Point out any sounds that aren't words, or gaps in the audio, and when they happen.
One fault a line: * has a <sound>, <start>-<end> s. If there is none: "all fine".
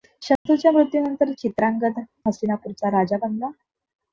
* has a dropout, 0.4-0.5 s